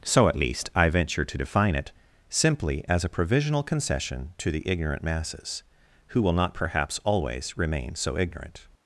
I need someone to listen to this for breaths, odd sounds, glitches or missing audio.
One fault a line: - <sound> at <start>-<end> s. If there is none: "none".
none